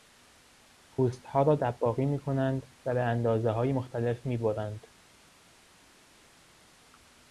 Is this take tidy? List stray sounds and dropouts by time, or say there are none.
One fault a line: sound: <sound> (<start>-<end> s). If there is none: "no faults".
no faults